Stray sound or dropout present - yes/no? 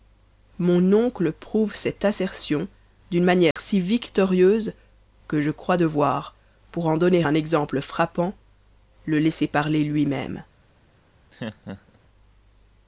yes